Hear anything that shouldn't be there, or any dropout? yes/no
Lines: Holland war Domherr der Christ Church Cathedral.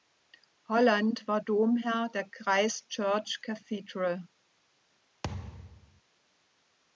yes